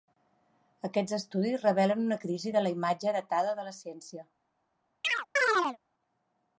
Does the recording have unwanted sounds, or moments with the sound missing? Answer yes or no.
yes